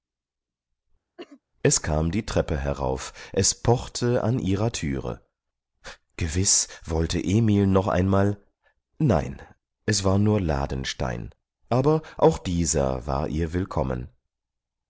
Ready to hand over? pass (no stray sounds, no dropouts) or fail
fail